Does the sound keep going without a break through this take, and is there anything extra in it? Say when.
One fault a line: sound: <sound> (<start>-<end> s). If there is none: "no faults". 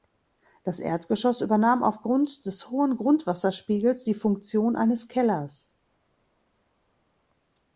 no faults